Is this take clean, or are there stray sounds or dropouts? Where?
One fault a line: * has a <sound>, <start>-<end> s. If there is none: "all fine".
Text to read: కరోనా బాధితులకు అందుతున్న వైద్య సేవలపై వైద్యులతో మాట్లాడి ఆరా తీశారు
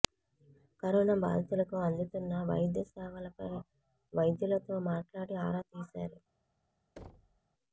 * has a thud, 7.0-7.4 s